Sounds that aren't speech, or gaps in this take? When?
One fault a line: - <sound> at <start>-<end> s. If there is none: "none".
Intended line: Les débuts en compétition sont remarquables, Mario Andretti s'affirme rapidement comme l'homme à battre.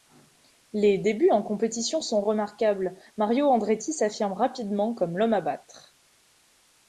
none